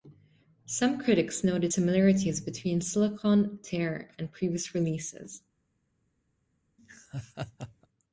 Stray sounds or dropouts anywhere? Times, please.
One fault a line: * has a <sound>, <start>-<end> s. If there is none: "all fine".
* has a laugh, 6.8-7.9 s